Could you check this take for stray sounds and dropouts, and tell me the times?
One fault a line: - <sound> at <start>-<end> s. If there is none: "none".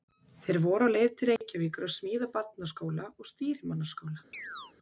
- dropout at 1.4-1.4 s
- chirp at 4.3-4.7 s